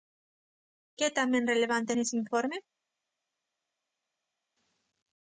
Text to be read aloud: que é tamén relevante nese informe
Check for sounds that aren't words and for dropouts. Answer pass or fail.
pass